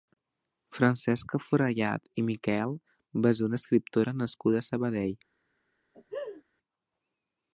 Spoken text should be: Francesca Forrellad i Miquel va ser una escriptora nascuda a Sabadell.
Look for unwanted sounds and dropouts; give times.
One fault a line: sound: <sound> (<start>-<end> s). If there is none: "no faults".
sound: laugh (5.9-6.4 s)